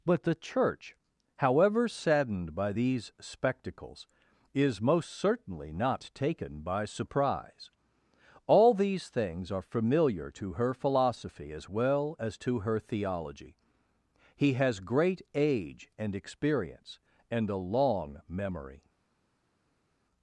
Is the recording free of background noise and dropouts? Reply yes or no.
yes